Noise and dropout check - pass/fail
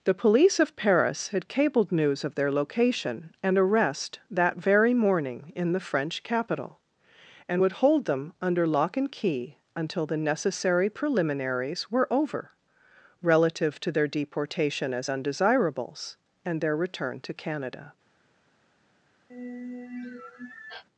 fail